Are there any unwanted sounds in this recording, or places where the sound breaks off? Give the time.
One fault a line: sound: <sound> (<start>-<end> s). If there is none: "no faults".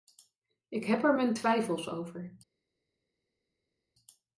no faults